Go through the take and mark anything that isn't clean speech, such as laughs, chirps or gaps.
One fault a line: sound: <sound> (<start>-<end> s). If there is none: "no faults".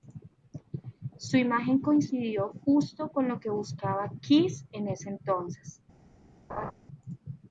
sound: laugh (6.5-6.7 s)